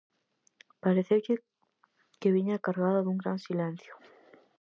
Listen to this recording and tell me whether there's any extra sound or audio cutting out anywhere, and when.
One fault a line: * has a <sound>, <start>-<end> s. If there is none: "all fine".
all fine